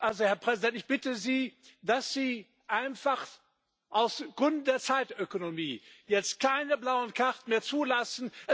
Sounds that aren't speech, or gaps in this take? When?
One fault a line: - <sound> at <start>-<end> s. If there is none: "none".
none